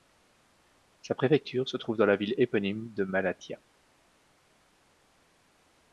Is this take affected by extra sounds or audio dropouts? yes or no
no